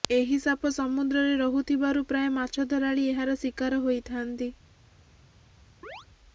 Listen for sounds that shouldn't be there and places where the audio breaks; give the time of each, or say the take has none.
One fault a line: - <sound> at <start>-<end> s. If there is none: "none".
- chirp at 5.8-6.1 s